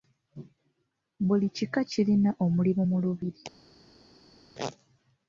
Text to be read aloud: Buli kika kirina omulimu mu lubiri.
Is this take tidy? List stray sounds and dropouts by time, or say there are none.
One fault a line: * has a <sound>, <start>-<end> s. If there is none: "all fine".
all fine